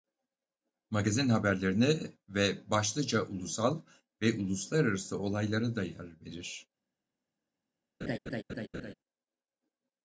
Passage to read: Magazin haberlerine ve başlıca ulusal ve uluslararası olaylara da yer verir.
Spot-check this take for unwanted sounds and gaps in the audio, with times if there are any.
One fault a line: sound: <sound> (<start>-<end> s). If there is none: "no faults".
sound: laugh (8.0-8.9 s)